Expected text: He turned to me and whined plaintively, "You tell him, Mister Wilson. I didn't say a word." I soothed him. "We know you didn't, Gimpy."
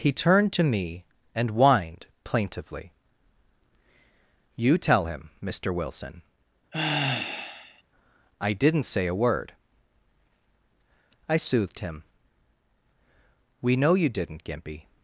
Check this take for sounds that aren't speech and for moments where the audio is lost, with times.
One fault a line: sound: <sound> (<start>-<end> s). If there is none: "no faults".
sound: sigh (6.7-7.8 s)